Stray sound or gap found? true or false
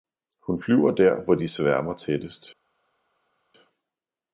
false